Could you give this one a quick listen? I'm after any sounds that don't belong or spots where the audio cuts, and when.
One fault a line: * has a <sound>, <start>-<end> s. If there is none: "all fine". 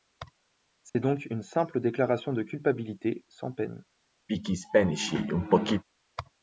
* has a dropout, 0.9-1.0 s
* has a throat clearing, 4.3-5.8 s